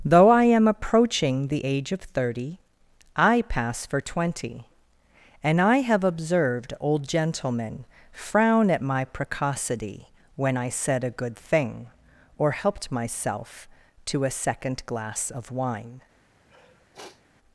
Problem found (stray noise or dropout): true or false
true